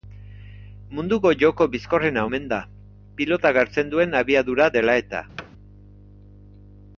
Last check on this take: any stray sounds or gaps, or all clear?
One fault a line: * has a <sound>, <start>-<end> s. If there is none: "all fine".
* has a thud, 5.4-5.5 s